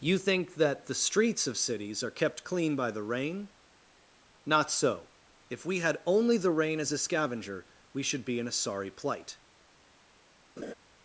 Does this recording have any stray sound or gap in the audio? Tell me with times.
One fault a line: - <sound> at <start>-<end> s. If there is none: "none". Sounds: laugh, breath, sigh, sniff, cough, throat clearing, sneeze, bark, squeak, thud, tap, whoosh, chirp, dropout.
- laugh at 10.6-10.7 s